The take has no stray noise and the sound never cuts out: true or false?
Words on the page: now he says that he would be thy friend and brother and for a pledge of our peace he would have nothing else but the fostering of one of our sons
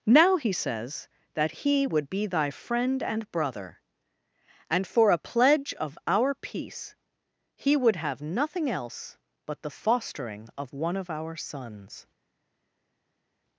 true